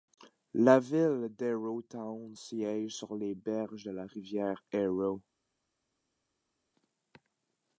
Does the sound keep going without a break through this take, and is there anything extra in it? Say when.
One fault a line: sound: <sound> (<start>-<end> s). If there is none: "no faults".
no faults